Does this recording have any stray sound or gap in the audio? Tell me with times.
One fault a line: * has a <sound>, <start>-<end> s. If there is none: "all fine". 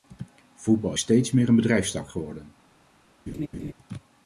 * has a laugh, 3.3-3.7 s